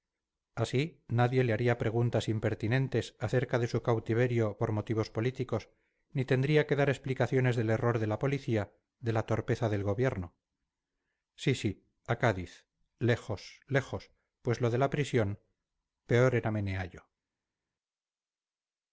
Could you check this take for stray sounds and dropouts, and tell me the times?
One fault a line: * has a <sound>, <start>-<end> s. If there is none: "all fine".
all fine